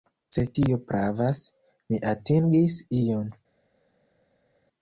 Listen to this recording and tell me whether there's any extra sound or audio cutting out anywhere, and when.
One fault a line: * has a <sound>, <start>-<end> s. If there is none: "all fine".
all fine